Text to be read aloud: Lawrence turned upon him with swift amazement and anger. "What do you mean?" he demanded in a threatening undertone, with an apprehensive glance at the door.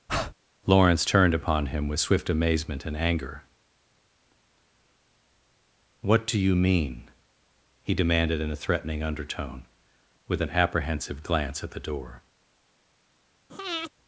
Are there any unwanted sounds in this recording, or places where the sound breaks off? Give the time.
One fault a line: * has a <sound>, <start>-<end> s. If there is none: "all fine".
* has a breath, 0.1-0.3 s
* has a breath, 13.5-13.9 s